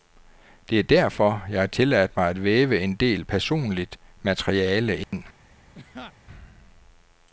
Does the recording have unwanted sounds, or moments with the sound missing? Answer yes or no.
yes